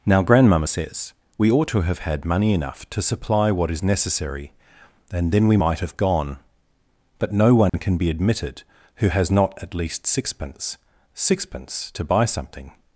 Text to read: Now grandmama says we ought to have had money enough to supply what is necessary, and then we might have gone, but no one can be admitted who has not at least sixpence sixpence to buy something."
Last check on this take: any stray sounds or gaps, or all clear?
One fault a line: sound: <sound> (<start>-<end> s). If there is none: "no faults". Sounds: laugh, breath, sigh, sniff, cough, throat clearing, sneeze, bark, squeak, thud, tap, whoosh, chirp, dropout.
sound: dropout (7.7-7.7 s)